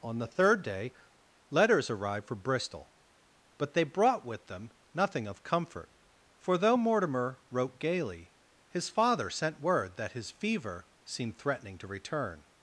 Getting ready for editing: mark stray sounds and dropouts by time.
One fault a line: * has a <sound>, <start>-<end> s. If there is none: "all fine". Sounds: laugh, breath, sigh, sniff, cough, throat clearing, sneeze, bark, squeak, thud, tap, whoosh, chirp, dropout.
all fine